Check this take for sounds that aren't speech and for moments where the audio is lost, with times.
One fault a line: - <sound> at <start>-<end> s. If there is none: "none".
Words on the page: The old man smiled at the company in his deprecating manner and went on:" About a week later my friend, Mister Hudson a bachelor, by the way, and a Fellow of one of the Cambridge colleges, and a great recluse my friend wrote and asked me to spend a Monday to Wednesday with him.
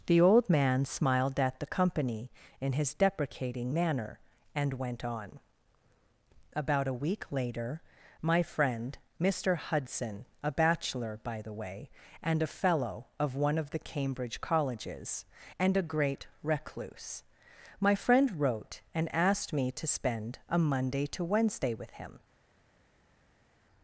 none